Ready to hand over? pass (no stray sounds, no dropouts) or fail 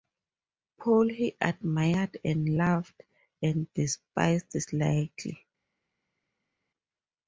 pass